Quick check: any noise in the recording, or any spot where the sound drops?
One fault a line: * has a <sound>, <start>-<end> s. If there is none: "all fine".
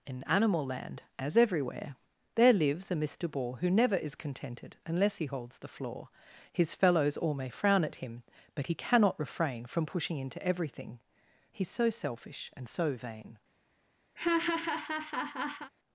* has a laugh, 14.2-15.7 s